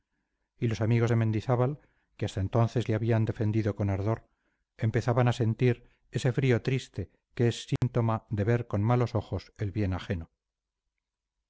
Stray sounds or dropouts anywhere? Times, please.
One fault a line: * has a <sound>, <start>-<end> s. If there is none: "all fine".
* has a dropout, 7.8-7.8 s